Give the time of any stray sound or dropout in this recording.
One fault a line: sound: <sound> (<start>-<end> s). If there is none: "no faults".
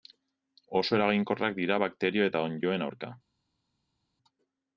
no faults